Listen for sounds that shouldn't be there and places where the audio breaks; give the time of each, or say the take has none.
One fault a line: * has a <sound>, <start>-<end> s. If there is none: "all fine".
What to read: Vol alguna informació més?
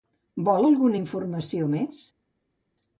all fine